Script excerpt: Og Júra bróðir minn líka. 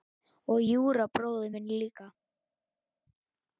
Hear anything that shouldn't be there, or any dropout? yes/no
no